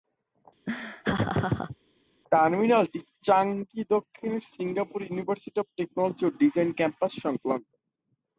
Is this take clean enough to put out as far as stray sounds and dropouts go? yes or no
no